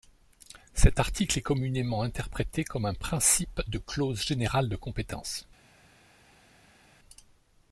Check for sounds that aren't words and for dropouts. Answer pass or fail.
pass